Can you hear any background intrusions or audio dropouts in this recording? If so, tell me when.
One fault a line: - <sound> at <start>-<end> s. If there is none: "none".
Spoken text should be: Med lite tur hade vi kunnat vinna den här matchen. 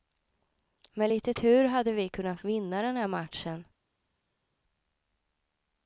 none